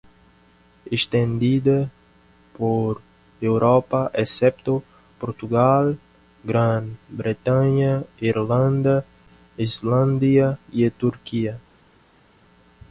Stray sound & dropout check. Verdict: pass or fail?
pass